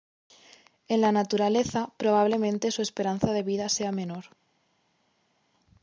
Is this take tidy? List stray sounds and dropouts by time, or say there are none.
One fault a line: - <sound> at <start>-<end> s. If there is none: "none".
none